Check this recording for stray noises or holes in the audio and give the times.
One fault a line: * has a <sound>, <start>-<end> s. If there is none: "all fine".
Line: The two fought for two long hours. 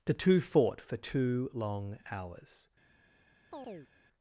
* has a chirp, 3.5-3.9 s